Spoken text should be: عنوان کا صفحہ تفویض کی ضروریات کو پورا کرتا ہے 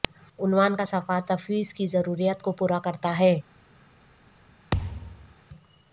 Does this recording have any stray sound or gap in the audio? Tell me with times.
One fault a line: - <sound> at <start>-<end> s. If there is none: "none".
- thud at 4.7-5.3 s